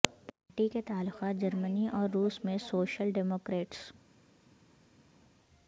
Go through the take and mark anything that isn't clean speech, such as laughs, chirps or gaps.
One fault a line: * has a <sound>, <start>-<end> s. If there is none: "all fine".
all fine